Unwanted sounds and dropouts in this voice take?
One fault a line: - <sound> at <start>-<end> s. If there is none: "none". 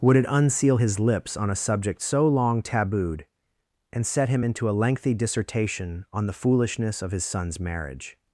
none